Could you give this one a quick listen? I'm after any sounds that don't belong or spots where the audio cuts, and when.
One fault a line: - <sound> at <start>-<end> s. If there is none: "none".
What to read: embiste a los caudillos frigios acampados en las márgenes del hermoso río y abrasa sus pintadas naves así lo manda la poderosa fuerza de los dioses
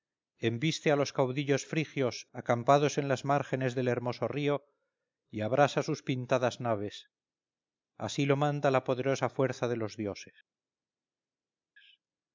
none